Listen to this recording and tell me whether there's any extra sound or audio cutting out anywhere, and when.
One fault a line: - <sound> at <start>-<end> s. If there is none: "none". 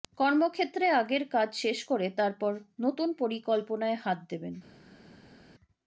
none